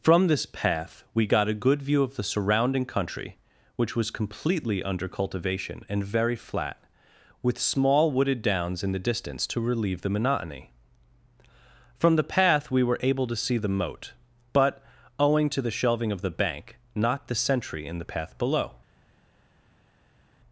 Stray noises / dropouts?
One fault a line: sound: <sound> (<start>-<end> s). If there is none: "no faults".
no faults